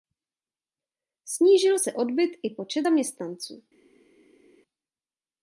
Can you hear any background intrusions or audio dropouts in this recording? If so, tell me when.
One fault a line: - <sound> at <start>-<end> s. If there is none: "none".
none